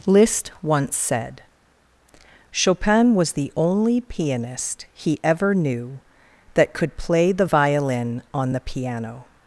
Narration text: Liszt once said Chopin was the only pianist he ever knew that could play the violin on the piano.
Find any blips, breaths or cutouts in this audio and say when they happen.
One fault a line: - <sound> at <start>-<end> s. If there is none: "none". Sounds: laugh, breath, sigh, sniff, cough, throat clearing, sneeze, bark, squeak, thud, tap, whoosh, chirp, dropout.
none